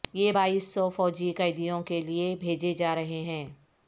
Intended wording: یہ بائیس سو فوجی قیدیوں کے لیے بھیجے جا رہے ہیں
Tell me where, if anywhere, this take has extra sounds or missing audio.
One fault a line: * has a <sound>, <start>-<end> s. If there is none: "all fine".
all fine